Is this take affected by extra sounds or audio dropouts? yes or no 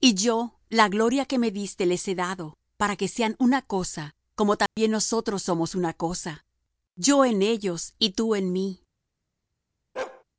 yes